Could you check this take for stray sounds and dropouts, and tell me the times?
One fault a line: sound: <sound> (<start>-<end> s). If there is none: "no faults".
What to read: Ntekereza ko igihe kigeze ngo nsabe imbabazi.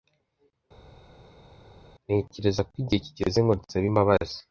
no faults